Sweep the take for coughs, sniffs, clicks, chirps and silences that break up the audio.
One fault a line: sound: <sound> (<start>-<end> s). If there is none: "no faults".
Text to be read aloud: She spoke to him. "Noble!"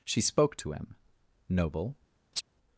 sound: chirp (2.3-2.4 s)